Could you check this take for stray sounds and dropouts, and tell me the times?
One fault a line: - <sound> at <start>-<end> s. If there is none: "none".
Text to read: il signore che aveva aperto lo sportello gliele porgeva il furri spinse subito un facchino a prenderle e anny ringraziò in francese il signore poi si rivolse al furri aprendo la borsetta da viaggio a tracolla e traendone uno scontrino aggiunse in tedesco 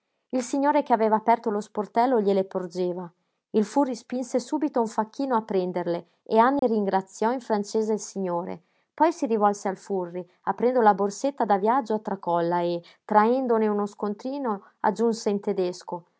- dropout at 6.6-6.6 s